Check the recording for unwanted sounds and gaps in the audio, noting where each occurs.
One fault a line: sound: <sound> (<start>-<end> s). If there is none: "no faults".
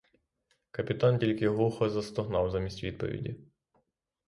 no faults